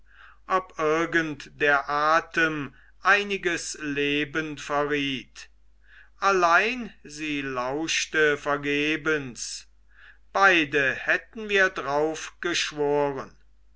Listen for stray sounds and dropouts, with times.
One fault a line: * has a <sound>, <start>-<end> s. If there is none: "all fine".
all fine